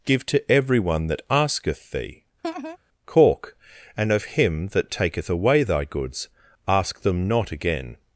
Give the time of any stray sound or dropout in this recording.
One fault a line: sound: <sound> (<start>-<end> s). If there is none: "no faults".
sound: laugh (2.4-2.8 s)